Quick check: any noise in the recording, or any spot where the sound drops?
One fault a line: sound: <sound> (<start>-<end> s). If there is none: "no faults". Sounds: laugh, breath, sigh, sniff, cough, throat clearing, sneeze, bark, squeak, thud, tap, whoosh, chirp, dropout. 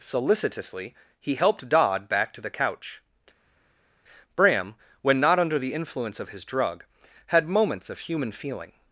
no faults